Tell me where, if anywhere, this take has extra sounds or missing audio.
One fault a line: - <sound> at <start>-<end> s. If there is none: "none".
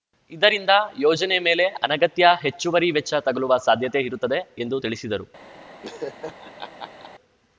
- laugh at 5.8-7.1 s